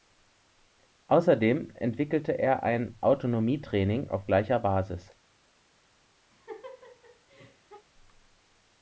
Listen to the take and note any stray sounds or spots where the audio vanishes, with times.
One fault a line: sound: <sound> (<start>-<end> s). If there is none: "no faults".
sound: laugh (6.3-7.9 s)